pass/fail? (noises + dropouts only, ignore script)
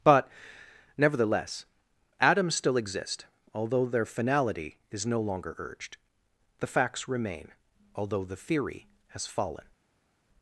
pass